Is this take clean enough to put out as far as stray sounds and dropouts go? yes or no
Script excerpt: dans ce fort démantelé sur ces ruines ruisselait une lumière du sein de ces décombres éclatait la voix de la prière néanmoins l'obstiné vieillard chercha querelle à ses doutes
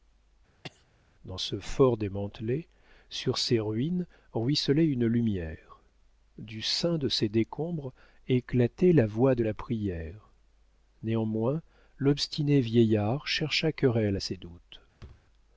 no